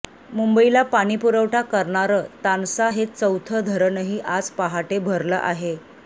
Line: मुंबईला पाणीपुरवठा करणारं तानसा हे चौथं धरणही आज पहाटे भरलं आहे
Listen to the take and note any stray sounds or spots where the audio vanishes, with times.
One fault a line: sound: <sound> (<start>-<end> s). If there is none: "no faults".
no faults